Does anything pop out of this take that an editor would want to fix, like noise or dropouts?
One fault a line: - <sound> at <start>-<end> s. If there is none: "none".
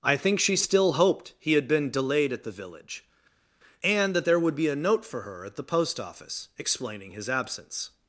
none